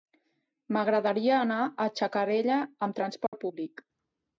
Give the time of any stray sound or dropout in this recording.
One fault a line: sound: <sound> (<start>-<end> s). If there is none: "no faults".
sound: dropout (3.3-3.3 s)